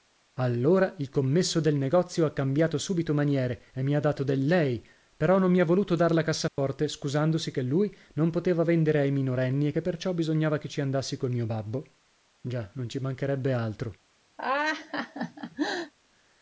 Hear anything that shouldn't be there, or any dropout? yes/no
yes